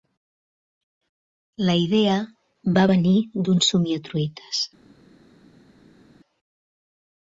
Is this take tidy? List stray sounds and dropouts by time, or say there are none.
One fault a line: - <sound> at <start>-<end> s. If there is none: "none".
none